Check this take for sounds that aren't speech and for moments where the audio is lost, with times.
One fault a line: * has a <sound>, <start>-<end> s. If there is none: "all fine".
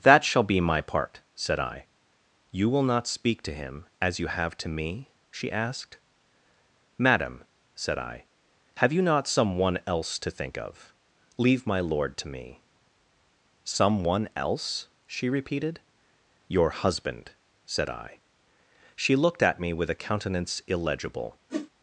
* has a whoosh, 21.5-21.7 s